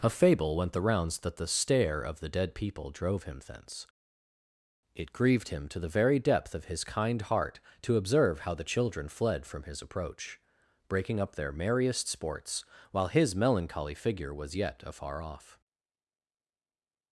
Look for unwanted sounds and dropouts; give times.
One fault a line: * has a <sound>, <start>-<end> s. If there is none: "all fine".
all fine